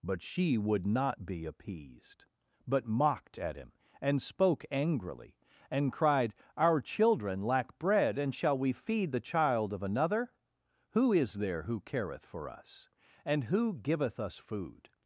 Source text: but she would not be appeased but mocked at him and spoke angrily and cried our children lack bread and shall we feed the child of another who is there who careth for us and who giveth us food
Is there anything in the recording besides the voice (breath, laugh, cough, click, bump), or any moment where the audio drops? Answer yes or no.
no